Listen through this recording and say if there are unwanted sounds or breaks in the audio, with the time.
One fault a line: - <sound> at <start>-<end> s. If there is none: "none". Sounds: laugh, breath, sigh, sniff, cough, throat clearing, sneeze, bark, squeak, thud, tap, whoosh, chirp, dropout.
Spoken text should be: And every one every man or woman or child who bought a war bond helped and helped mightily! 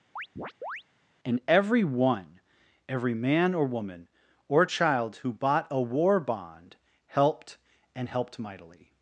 - chirp at 0.2-0.8 s